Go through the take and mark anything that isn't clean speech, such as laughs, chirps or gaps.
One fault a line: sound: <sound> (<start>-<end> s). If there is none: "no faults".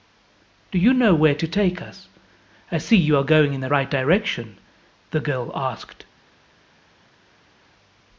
no faults